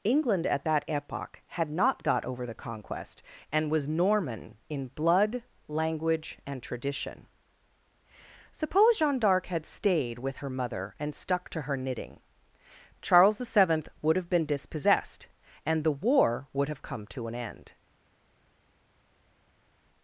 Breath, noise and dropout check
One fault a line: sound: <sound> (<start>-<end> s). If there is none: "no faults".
no faults